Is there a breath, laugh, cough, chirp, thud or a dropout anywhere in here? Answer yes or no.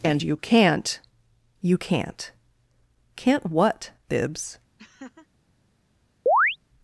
yes